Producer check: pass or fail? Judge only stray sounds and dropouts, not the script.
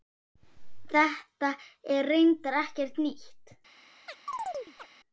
fail